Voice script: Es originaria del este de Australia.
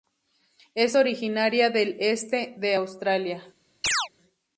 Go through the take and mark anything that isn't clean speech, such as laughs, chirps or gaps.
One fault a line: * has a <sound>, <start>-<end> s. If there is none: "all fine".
* has a chirp, 3.8-4.1 s